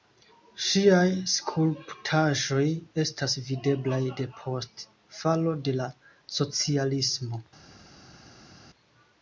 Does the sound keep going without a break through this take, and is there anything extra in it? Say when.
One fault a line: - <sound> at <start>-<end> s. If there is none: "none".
none